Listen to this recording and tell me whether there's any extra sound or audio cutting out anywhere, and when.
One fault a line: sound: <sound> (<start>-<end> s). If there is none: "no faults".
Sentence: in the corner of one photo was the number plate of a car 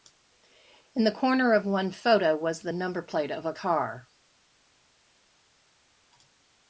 no faults